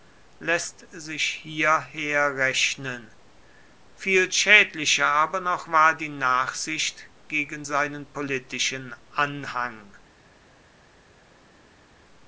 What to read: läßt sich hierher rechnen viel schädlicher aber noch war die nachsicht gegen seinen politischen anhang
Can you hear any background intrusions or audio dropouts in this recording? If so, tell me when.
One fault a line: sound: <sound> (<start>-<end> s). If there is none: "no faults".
no faults